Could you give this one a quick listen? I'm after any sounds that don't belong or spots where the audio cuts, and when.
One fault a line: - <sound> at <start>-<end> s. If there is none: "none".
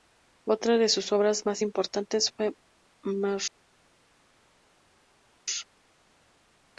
none